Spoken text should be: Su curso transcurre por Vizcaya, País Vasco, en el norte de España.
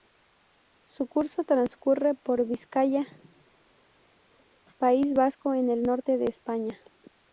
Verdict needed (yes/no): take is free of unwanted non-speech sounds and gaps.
yes